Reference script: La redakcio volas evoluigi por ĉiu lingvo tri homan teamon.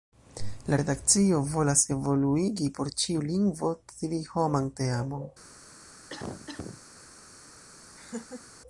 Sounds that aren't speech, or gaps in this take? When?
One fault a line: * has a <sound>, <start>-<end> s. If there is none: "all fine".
* has a cough, 6.1-6.8 s
* has a laugh, 8.0-8.4 s